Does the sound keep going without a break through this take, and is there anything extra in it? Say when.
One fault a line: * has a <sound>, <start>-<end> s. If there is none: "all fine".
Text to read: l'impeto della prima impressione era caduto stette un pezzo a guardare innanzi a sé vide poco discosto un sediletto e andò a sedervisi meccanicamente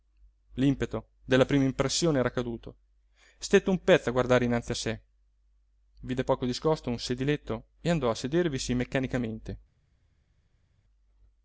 all fine